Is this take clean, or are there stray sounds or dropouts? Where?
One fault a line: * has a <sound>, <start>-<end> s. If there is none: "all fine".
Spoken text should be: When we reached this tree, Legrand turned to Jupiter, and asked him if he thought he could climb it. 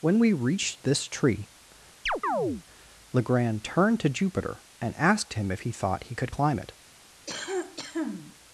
* has a chirp, 2.1-2.6 s
* has a cough, 7.3-8.4 s